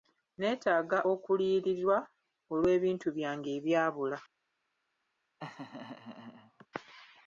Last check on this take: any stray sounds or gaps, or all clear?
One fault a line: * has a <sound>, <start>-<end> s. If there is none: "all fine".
* has a laugh, 5.4-6.7 s